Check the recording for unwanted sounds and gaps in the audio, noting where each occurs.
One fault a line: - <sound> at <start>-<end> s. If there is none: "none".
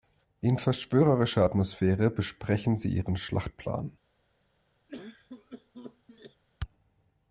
- cough at 4.9-6.4 s